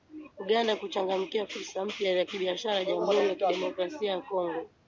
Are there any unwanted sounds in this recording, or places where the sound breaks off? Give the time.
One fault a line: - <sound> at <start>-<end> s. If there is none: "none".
none